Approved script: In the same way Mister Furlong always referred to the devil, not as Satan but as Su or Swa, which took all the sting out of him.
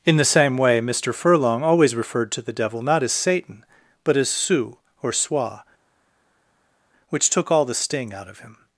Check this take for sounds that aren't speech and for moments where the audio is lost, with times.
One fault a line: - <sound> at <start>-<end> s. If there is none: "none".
none